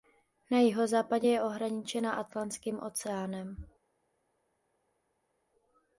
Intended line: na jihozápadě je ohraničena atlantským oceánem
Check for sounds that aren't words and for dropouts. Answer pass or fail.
pass